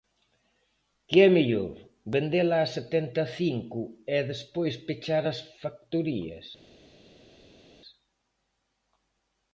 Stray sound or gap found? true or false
false